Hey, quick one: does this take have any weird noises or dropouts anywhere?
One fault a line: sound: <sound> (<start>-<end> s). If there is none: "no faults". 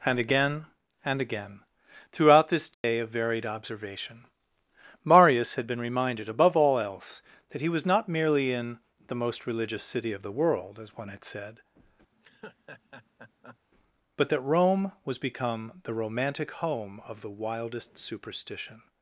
sound: dropout (2.7-2.8 s)
sound: laugh (12.1-13.6 s)